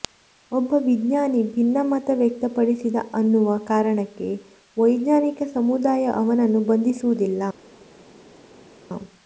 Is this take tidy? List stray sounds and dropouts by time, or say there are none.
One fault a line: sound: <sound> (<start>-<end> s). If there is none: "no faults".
no faults